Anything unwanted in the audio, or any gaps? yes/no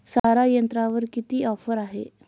yes